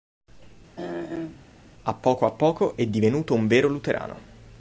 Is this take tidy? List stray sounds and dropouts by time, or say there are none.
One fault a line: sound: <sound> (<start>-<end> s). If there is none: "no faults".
sound: throat clearing (0.8-1.5 s)